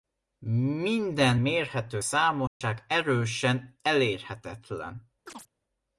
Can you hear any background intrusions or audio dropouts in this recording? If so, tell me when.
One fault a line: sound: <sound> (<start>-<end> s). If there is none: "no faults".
sound: dropout (2.5-2.6 s)
sound: chirp (5.3-5.5 s)